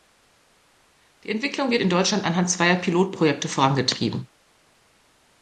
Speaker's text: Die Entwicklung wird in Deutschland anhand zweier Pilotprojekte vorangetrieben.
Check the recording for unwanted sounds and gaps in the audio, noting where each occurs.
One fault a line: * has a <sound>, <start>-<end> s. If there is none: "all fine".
all fine